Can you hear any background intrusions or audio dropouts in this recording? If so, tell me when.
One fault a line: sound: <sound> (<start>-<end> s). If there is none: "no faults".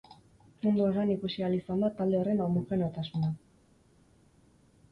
no faults